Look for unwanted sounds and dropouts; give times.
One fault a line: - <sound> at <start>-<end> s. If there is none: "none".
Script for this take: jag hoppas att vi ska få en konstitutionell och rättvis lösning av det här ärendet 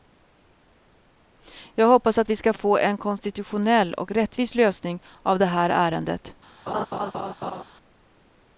- laugh at 6.7-7.6 s